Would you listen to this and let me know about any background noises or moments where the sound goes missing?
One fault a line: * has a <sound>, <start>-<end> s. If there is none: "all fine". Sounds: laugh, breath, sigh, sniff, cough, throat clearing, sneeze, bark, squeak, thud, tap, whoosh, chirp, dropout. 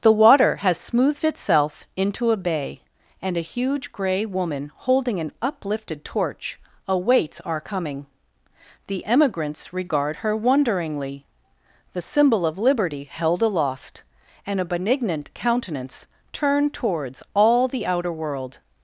all fine